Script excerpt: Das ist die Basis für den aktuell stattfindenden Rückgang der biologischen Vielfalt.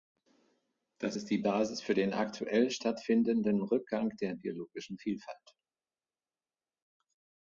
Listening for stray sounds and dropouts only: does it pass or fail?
pass